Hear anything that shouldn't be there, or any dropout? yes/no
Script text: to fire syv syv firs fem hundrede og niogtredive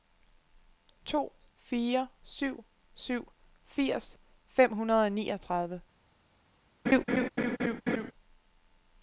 yes